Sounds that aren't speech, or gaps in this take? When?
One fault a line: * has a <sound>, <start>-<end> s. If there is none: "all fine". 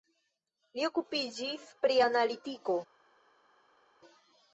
all fine